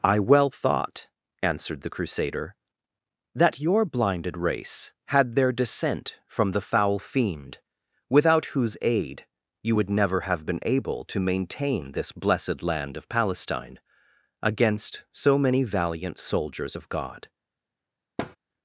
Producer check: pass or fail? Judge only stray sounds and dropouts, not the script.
fail